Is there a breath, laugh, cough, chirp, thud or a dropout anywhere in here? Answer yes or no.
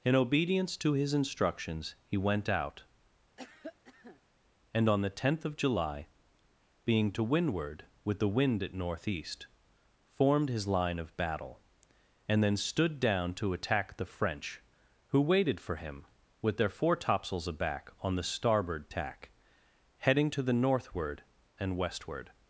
yes